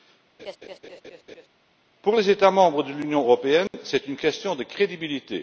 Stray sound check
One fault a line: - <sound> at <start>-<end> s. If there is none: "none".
- laugh at 0.4-1.5 s
- dropout at 3.7-3.7 s